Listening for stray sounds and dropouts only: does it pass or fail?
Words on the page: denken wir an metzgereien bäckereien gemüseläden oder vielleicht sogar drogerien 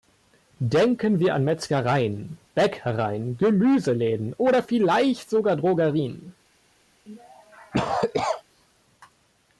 fail